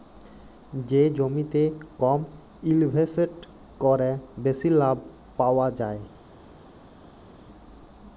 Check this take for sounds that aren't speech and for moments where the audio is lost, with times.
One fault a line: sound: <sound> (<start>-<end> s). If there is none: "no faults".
no faults